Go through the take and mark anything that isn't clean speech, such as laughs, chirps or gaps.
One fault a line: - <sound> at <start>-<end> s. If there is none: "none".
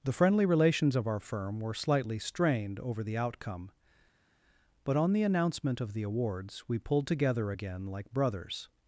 none